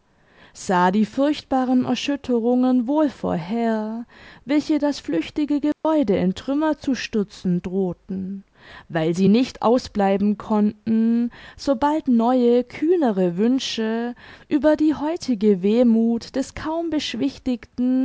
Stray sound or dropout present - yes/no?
yes